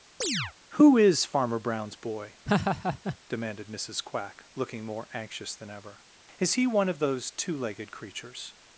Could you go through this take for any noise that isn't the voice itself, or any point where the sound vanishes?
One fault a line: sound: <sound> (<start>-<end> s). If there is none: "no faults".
sound: chirp (0.2-0.5 s)
sound: laugh (2.5-3.2 s)